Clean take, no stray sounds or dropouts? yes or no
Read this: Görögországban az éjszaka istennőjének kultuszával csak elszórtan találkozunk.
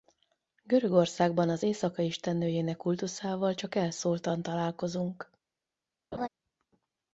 no